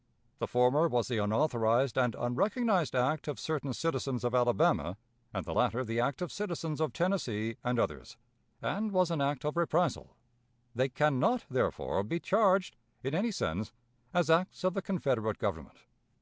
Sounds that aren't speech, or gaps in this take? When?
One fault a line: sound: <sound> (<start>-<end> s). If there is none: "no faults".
no faults